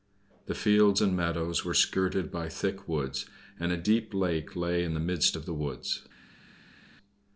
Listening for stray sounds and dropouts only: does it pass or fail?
pass